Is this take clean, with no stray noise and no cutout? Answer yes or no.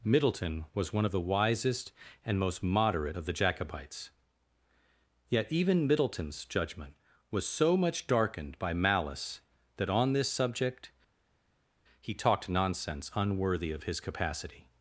yes